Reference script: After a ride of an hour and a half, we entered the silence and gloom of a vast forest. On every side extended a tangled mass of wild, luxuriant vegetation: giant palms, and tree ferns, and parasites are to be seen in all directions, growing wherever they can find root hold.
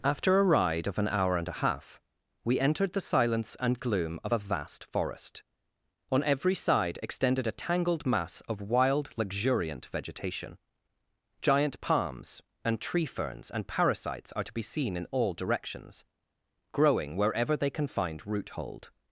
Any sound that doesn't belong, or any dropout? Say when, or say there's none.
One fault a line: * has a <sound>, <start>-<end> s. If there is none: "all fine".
all fine